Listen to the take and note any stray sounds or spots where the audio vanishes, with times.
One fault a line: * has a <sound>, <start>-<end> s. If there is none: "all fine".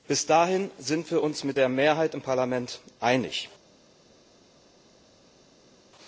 all fine